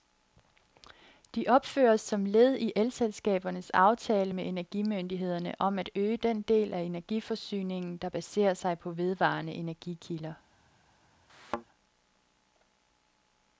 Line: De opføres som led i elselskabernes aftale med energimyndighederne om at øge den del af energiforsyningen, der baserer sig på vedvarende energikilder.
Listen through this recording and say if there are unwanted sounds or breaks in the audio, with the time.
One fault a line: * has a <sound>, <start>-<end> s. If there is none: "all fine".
* has a thud, 11.3-11.6 s